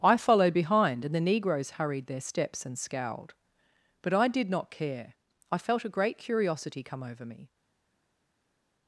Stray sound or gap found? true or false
false